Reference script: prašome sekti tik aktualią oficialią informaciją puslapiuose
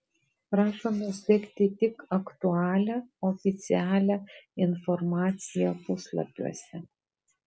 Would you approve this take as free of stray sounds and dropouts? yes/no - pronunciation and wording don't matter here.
yes